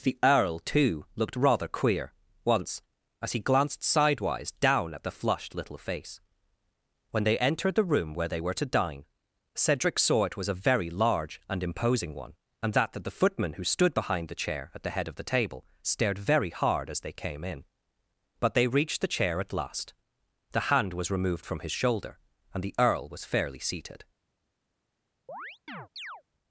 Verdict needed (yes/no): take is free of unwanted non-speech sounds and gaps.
no